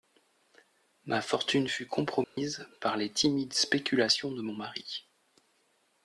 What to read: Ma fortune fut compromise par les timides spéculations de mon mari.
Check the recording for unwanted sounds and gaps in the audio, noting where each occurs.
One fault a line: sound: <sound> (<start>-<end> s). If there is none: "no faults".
sound: dropout (2.2-2.4 s)